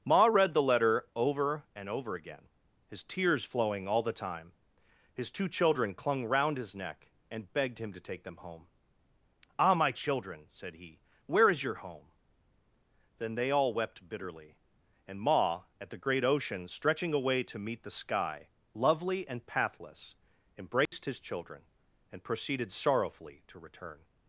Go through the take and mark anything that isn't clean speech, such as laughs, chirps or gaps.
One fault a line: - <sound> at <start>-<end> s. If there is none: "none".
- dropout at 20.9-20.9 s